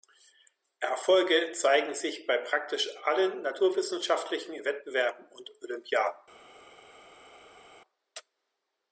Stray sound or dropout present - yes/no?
no